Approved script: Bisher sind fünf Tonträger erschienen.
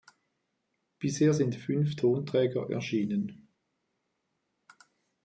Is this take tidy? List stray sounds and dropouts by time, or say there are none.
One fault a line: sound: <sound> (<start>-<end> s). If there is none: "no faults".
no faults